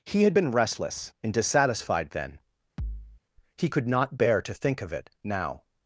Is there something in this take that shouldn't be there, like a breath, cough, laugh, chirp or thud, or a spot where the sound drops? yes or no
yes